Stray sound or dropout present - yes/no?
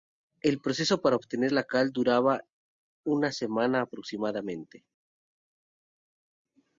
no